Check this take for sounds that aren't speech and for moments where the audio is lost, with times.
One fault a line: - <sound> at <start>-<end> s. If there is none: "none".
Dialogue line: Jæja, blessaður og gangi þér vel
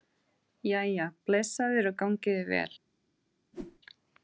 - whoosh at 3.5-3.8 s